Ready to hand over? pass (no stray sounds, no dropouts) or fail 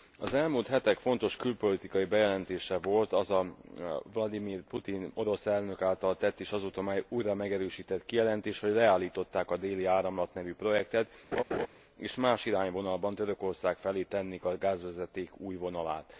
fail